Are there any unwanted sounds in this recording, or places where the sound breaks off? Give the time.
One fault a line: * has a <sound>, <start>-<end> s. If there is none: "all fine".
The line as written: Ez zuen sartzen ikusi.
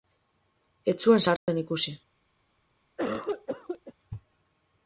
* has a dropout, 1.4-1.5 s
* has a cough, 3.0-3.9 s